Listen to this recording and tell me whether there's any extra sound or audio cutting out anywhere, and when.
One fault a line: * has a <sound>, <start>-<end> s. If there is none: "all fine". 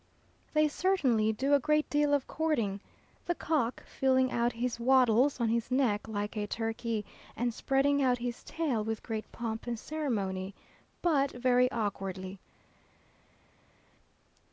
all fine